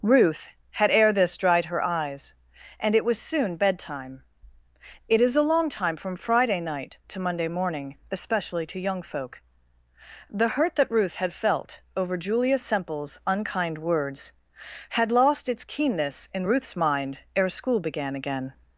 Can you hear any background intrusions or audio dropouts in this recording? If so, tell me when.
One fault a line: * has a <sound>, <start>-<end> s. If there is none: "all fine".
all fine